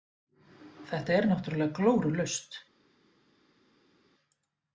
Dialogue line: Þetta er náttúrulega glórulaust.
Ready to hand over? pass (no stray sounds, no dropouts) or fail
pass